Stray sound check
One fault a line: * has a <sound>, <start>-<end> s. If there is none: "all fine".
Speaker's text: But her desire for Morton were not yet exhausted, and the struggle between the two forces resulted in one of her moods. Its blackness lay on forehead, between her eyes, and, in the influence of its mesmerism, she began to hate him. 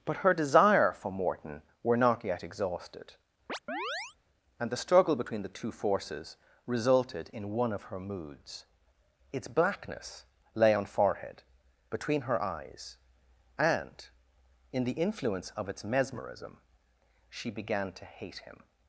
* has a chirp, 3.5-4.2 s